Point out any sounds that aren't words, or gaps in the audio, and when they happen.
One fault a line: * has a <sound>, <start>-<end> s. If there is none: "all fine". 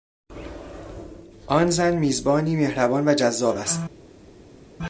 all fine